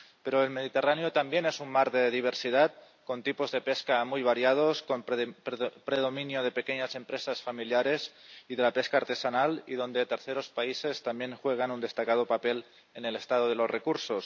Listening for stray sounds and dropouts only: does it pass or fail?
pass